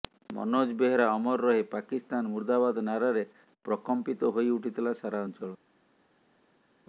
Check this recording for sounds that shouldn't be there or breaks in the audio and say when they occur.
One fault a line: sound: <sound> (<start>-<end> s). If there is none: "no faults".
no faults